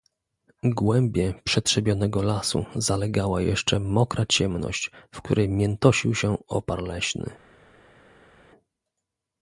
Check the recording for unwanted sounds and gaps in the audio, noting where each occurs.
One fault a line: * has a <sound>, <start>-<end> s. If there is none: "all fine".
all fine